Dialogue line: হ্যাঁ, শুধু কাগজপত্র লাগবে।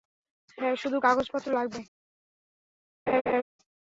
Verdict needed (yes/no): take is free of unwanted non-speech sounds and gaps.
no